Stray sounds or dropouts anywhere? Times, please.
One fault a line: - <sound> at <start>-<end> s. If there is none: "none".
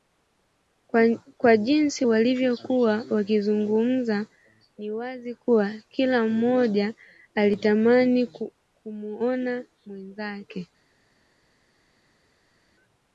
none